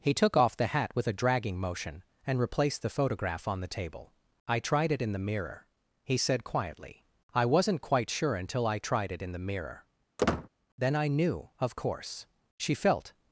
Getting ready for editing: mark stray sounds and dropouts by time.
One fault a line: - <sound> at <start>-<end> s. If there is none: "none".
- squeak at 10.2-10.5 s